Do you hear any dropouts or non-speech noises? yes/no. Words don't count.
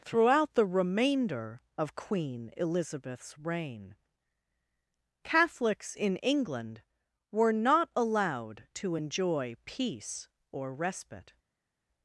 no